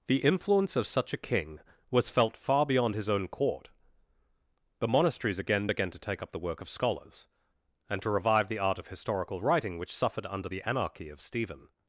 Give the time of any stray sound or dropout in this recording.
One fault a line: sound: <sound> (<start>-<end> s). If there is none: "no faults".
no faults